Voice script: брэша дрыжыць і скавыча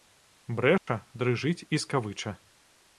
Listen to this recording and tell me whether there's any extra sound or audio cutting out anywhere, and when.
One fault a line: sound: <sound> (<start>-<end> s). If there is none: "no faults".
sound: dropout (0.8-0.9 s)